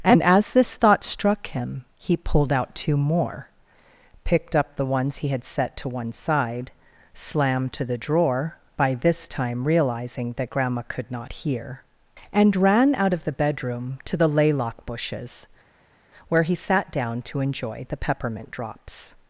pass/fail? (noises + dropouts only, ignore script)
pass